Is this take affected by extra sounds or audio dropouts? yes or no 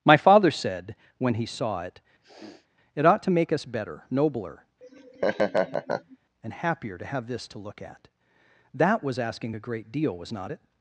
yes